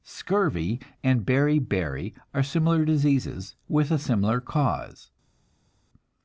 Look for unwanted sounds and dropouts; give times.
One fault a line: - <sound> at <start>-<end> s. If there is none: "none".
none